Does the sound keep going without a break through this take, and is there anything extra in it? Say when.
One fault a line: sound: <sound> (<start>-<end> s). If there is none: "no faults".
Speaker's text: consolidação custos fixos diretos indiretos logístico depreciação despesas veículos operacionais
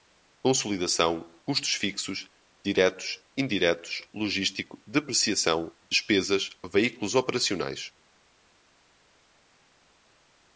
no faults